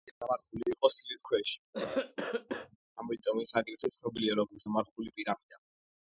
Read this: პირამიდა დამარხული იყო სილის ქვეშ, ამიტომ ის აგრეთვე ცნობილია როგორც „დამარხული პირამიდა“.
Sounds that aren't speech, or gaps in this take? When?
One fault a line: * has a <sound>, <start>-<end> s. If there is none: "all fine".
* has a cough, 1.7-2.8 s